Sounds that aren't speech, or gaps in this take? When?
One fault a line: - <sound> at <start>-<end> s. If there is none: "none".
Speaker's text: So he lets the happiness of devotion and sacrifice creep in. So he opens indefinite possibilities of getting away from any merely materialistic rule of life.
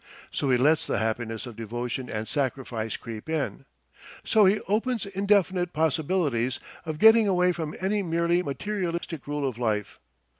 - dropout at 9.0-9.0 s